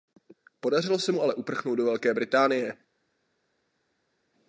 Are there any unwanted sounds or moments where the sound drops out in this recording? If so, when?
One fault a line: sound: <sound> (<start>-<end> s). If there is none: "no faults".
no faults